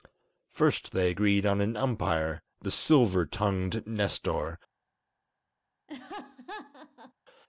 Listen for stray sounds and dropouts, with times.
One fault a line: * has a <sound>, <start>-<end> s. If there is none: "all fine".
* has a laugh, 5.9-7.1 s